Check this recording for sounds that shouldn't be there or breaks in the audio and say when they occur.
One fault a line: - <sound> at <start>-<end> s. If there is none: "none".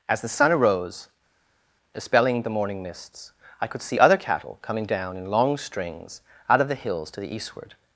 none